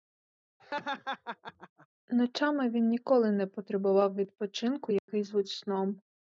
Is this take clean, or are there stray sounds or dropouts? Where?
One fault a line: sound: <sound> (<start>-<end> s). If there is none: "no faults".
sound: laugh (0.6-1.9 s)
sound: dropout (5.0-5.1 s)